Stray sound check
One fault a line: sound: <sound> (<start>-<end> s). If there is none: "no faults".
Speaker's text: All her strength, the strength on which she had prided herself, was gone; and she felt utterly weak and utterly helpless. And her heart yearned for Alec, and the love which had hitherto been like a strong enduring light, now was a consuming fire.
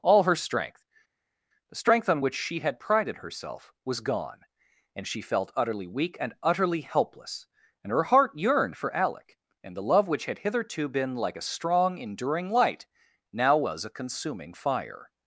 no faults